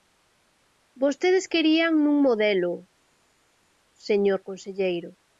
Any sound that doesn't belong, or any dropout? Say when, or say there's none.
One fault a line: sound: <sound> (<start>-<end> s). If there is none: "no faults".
no faults